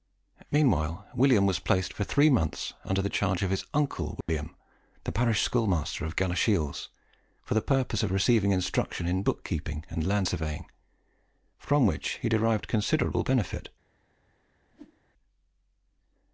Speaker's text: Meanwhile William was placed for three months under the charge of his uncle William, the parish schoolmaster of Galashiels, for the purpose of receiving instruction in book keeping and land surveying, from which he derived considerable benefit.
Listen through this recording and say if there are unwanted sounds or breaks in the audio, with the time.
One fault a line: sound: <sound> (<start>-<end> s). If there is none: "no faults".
sound: dropout (4.2-4.3 s)
sound: whoosh (14.7-15.0 s)